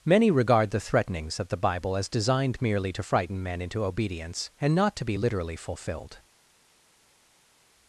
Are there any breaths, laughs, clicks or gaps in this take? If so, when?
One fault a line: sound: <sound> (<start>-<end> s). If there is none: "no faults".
no faults